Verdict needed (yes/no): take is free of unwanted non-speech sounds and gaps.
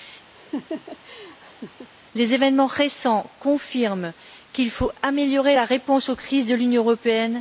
no